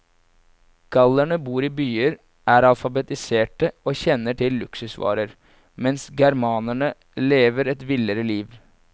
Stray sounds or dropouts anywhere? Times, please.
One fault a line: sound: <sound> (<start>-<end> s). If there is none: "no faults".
no faults